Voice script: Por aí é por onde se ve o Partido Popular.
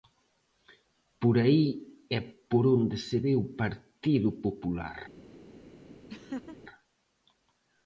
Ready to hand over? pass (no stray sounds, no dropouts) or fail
fail